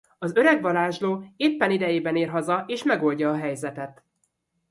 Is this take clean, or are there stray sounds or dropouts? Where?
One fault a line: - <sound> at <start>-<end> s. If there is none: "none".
none